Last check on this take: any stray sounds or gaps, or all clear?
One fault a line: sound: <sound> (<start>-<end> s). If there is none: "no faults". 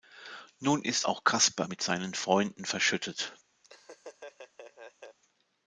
sound: laugh (3.6-5.2 s)